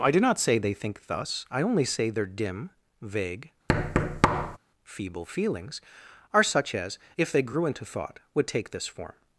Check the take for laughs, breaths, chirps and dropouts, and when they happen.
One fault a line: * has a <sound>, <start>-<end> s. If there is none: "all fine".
* has a thud, 3.7-4.6 s